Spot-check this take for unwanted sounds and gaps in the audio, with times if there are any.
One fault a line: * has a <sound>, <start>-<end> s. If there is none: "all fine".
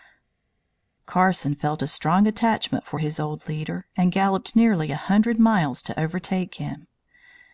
all fine